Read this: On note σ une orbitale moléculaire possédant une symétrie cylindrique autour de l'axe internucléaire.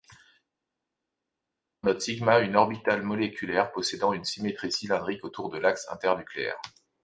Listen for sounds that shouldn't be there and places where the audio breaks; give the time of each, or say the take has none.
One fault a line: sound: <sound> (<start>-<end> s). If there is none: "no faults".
no faults